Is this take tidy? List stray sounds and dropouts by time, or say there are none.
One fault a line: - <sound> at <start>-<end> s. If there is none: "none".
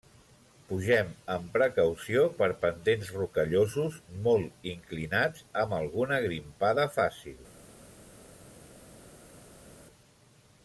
none